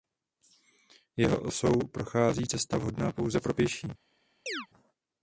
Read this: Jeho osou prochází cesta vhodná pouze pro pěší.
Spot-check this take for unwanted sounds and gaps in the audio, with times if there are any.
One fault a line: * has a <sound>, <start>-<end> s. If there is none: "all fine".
* has a chirp, 4.5-4.7 s